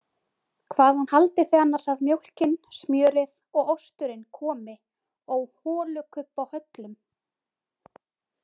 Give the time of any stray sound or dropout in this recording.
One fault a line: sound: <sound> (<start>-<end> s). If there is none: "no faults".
no faults